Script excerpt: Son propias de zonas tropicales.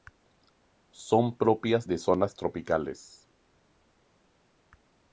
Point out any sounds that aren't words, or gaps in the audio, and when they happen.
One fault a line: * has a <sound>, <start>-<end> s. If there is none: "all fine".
all fine